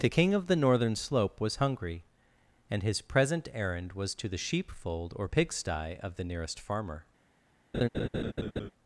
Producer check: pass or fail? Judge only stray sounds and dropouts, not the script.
fail